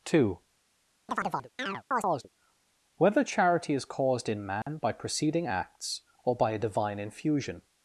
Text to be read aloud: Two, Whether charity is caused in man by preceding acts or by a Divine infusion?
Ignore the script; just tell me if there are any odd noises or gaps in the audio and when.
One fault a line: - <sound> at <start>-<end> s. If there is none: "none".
- chirp at 1.1-2.3 s
- dropout at 4.6-4.7 s